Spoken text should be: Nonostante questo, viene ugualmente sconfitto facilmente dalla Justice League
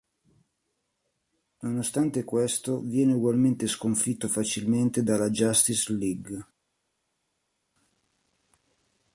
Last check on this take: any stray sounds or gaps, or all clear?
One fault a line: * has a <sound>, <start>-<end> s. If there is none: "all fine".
all fine